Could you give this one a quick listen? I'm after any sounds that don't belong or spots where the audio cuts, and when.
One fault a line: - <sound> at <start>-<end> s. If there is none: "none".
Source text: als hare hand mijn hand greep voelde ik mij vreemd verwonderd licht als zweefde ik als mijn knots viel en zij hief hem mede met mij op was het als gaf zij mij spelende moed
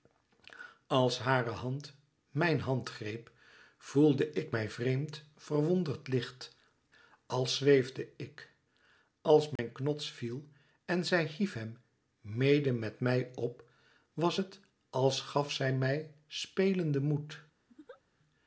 - dropout at 9.6-9.6 s
- laugh at 17.7-18.0 s